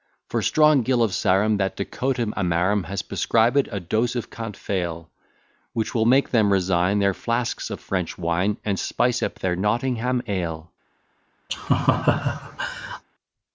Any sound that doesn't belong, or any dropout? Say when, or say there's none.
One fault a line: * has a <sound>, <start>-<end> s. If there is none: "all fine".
* has a laugh, 11.5-13.0 s